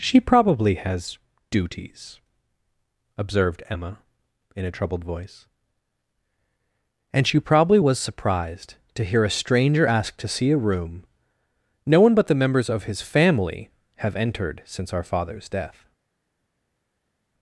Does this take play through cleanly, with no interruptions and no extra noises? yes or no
yes